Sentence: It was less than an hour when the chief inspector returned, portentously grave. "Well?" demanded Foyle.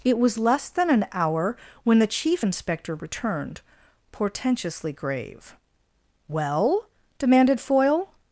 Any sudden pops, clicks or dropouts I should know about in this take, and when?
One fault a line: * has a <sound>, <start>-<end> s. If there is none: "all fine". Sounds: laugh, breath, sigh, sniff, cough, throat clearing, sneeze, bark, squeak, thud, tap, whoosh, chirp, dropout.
all fine